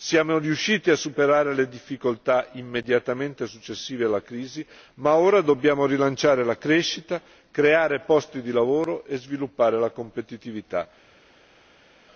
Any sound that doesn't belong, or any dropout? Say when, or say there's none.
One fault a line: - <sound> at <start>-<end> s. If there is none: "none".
none